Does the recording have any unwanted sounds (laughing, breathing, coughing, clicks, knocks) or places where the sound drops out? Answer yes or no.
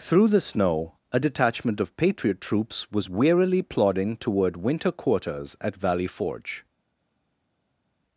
no